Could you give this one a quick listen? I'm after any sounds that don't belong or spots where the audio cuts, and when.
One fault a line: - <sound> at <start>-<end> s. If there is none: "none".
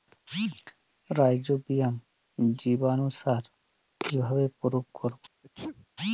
- sneeze at 5.4-5.9 s